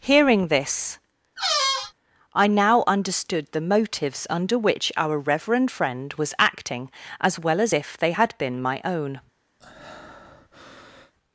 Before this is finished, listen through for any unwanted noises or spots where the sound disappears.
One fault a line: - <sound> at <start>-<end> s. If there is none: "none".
- squeak at 1.4-1.9 s
- breath at 9.6-11.1 s